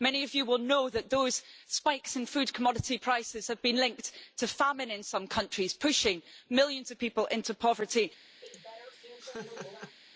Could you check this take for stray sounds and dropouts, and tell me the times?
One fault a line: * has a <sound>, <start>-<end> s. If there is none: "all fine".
* has a laugh, 8.4-10.0 s